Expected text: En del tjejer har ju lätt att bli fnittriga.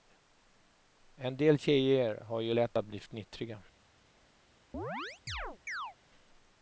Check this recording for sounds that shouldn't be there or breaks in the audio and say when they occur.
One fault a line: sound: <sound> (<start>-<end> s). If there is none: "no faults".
sound: chirp (4.7-6.0 s)